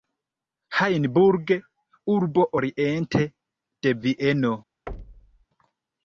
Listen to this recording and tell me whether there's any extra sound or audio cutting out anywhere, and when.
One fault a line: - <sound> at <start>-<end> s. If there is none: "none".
- thud at 4.9-5.5 s